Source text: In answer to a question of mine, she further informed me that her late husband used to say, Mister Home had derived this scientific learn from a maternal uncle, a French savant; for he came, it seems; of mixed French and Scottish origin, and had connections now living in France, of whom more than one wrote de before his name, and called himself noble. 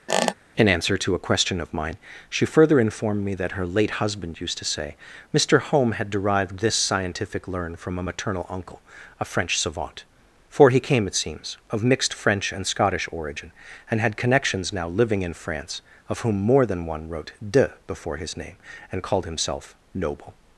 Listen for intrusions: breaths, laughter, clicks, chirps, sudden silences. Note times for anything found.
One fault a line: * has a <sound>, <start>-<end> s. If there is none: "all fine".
* has a squeak, 0.1-0.3 s